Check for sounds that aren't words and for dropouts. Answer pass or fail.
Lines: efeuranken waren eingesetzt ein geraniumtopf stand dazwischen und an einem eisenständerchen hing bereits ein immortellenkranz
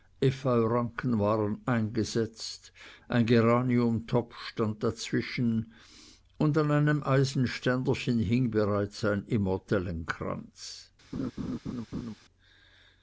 fail